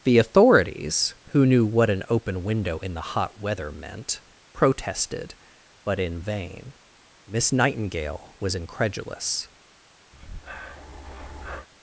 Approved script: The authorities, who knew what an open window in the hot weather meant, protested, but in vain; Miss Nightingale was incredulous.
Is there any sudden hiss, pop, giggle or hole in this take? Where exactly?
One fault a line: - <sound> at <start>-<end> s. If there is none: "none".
- breath at 10.1-11.7 s